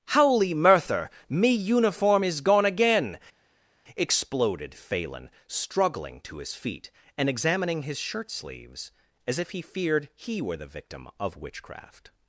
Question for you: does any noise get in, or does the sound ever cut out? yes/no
no